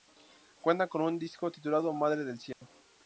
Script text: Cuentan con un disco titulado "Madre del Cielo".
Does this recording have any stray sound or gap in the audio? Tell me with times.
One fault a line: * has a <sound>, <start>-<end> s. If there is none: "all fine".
* has a dropout, 2.5-2.6 s